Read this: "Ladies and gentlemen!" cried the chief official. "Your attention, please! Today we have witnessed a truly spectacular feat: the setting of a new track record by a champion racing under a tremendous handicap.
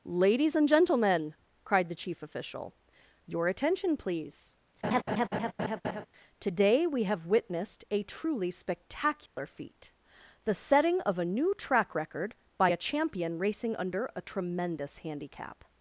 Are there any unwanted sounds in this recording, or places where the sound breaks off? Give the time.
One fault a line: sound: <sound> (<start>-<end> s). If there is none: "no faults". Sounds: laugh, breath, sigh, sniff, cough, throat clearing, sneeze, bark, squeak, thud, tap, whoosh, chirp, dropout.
sound: laugh (4.8-6.1 s)
sound: dropout (9.3-9.4 s)